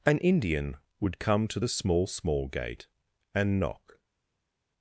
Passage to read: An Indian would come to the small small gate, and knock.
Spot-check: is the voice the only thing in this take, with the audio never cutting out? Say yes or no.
yes